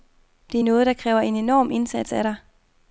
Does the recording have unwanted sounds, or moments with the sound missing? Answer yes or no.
no